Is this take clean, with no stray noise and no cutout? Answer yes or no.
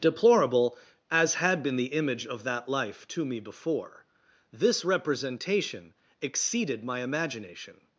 yes